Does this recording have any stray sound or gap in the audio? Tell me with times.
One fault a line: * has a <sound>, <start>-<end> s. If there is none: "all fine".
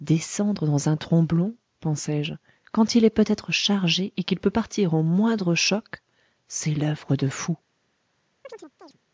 * has a chirp, 8.4-9.0 s